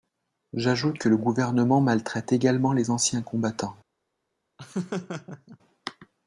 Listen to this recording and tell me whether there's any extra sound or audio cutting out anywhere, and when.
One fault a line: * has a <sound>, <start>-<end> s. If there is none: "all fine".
* has a laugh, 4.6-5.6 s